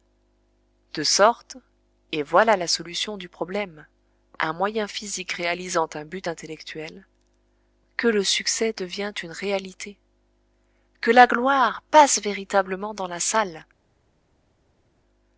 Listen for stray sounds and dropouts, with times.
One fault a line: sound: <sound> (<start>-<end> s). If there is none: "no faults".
no faults